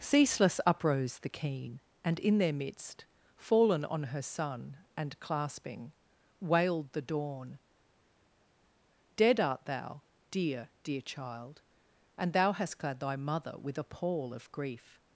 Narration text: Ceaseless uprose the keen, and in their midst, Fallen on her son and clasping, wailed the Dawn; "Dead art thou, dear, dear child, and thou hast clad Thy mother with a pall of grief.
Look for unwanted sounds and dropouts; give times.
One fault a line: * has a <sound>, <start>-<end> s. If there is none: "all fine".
all fine